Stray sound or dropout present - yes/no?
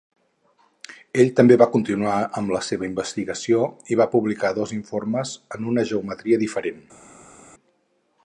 no